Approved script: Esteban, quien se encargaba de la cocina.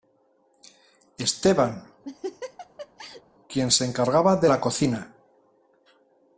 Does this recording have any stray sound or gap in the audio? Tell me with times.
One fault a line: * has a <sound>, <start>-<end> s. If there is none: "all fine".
* has a laugh, 2.0-3.2 s